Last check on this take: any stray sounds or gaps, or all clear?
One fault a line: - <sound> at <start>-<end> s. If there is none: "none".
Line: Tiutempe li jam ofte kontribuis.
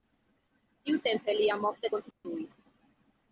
- dropout at 2.1-2.2 s